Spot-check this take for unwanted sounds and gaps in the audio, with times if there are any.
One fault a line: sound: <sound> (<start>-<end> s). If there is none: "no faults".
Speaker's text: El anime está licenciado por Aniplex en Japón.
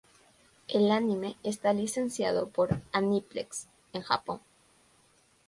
no faults